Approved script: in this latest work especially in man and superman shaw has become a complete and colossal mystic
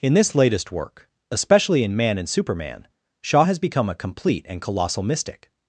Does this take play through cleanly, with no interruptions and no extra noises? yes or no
yes